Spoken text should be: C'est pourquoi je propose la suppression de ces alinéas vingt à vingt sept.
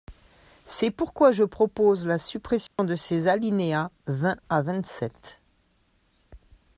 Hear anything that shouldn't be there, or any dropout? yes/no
yes